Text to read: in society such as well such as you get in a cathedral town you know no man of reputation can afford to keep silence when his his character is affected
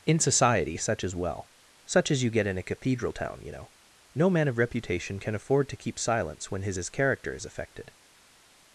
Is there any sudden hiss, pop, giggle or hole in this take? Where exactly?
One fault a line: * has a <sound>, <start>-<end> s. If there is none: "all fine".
all fine